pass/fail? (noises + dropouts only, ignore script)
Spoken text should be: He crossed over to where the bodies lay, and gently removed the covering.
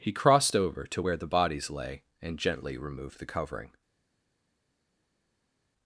pass